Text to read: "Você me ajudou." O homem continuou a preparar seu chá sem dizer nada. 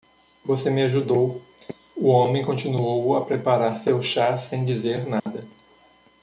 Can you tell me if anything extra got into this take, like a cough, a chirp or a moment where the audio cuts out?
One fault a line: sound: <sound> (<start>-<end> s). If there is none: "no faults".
sound: dropout (5.2-5.3 s)